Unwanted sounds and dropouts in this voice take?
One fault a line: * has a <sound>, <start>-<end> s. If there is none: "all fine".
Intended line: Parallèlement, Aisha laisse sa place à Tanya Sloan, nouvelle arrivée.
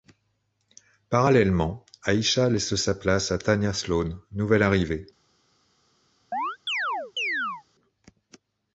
* has a chirp, 6.3-7.6 s